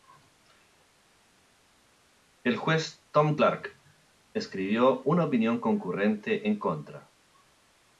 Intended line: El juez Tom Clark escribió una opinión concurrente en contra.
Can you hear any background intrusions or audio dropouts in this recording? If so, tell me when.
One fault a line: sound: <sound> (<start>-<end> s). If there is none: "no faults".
no faults